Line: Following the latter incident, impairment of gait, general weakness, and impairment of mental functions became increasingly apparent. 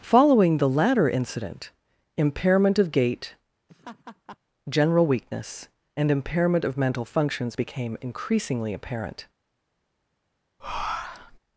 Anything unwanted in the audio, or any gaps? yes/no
yes